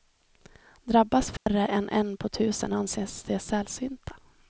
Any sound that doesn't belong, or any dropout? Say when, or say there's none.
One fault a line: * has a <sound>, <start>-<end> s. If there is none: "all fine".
* has a dropout, 1.4-1.5 s